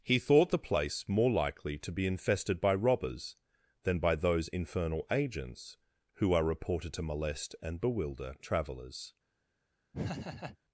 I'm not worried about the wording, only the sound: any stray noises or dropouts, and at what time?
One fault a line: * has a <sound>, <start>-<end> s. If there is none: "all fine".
* has a laugh, 9.9-10.6 s